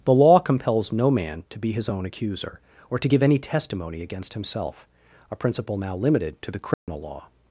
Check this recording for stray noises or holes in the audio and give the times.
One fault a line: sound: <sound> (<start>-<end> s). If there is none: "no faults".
sound: dropout (6.7-6.9 s)